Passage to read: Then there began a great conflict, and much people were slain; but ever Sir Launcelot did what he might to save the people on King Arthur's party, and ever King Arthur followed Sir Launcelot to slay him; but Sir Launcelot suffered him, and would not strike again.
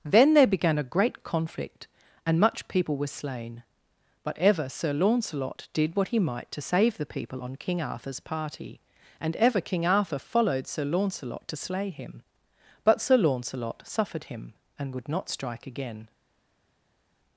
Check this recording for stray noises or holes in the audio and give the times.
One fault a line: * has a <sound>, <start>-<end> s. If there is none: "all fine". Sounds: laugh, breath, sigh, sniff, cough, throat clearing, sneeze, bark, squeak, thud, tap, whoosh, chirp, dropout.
all fine